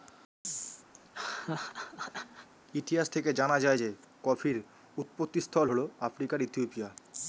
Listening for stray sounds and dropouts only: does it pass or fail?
fail